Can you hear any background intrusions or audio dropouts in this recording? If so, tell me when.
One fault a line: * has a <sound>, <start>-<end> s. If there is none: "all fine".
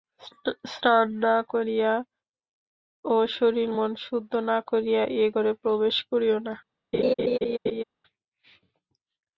* has a laugh, 6.9-7.8 s